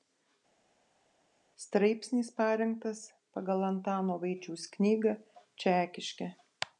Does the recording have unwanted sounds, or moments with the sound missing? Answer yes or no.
no